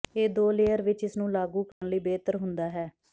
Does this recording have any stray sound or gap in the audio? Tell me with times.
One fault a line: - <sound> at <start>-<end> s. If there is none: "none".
- dropout at 1.7-1.8 s